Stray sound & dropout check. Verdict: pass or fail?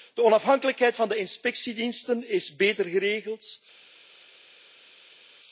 pass